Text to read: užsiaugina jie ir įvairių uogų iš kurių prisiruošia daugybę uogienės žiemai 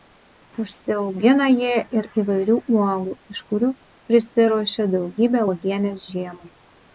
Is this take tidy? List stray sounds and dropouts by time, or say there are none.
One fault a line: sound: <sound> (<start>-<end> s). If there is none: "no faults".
no faults